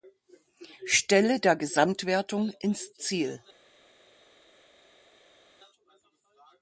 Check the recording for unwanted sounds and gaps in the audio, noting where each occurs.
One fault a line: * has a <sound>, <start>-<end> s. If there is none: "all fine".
all fine